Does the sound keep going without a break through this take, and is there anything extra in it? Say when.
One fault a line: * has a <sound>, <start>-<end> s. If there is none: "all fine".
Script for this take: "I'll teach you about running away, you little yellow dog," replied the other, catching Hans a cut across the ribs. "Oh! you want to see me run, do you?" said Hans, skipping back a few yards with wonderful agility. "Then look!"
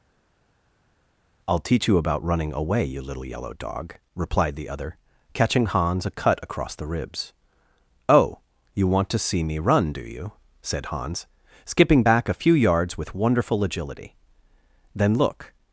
all fine